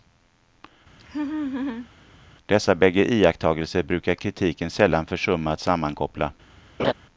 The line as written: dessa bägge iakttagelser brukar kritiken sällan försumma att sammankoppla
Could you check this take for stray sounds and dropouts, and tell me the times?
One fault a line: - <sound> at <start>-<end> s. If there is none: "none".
- laugh at 1.0-1.9 s
- laugh at 6.8-6.9 s